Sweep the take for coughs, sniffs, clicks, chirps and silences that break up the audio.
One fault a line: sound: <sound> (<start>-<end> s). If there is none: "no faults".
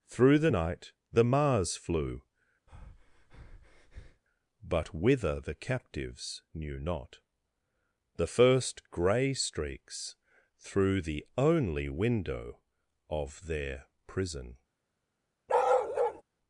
sound: breath (2.7-4.2 s)
sound: bark (15.5-16.2 s)